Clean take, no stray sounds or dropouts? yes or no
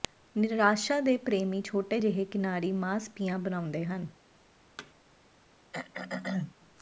no